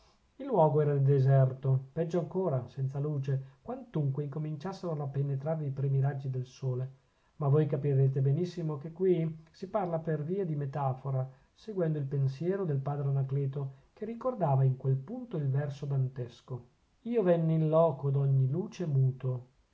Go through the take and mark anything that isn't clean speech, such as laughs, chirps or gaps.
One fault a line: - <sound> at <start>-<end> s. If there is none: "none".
none